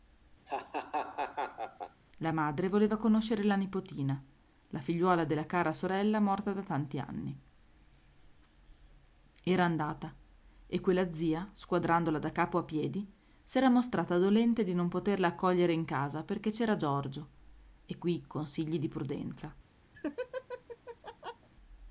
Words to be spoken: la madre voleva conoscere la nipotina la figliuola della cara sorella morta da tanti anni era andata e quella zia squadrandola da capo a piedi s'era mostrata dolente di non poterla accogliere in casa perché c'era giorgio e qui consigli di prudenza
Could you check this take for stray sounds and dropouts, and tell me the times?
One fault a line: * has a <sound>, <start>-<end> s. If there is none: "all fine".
* has a laugh, 0.5-2.0 s
* has a laugh, 19.9-21.5 s